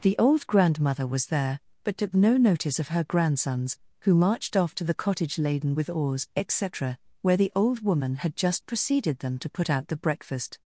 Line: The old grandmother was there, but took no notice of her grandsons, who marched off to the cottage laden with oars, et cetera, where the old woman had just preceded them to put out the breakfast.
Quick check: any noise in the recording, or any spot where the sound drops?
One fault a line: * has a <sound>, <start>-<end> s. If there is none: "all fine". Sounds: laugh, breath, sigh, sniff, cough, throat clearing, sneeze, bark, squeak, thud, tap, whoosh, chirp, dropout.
all fine